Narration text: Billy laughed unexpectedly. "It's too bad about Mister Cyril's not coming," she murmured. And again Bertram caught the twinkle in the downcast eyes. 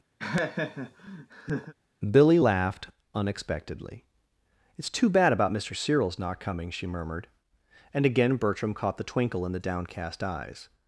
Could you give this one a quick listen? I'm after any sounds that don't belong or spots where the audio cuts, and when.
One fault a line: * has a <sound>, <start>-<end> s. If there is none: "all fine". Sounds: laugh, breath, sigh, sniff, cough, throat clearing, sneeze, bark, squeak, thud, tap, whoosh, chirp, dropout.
* has a laugh, 0.2-1.7 s